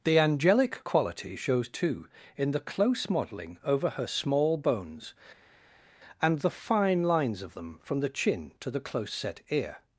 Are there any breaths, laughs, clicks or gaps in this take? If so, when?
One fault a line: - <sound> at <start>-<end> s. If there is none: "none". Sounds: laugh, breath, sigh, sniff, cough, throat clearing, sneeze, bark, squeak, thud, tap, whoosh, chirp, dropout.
none